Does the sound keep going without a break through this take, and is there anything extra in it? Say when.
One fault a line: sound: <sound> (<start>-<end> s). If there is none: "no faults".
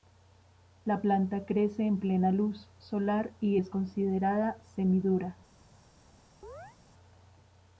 sound: chirp (6.4-6.8 s)